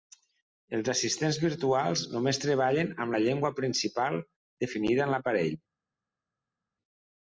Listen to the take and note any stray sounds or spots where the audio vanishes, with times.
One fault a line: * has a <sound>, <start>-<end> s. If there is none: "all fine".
all fine